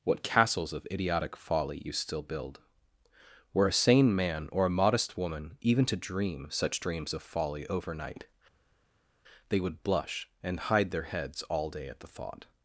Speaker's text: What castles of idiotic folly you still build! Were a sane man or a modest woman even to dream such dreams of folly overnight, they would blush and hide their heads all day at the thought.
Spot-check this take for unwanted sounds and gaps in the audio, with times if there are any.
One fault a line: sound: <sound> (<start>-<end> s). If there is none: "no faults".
no faults